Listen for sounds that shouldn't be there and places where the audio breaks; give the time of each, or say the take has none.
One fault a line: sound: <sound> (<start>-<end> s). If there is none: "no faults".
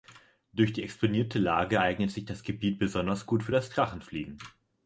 no faults